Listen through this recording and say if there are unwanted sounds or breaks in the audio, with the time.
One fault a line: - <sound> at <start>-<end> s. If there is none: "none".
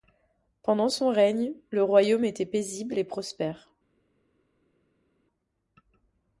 none